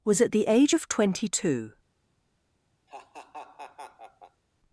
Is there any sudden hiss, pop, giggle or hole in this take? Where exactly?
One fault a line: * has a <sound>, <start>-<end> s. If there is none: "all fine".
* has a laugh, 2.9-4.4 s